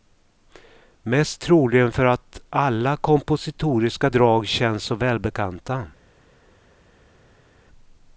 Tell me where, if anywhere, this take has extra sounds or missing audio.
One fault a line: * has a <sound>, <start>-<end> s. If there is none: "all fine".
all fine